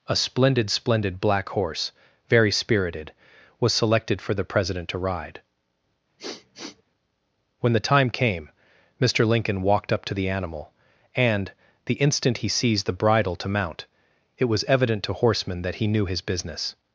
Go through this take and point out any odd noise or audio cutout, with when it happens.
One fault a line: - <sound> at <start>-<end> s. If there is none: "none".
- sniff at 6.2-6.8 s